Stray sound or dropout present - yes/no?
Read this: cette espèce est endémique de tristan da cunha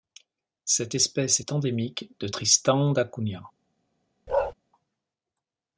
yes